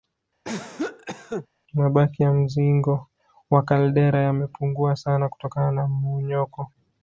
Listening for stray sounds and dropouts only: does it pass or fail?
fail